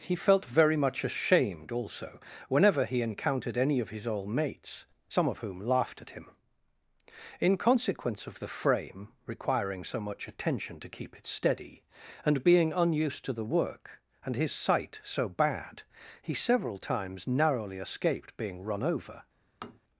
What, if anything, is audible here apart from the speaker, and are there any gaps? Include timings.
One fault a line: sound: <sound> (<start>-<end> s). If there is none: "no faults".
sound: tap (19.6-19.8 s)